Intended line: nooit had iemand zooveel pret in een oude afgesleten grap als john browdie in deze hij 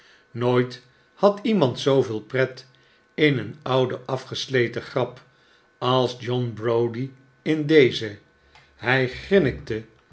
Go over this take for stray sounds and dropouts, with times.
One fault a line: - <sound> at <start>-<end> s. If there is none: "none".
none